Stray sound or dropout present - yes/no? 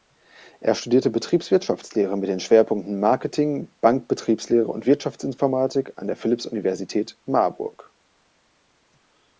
no